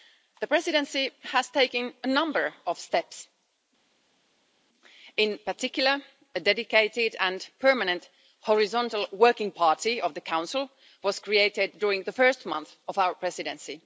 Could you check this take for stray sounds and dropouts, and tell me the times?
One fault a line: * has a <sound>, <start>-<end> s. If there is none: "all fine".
all fine